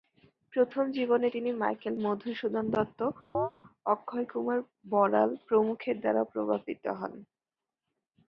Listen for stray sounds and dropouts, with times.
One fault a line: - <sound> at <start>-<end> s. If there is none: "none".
- chirp at 3.3-3.5 s